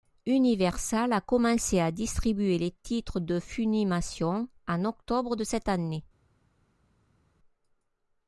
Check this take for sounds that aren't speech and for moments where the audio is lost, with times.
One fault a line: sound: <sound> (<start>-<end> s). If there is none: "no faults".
no faults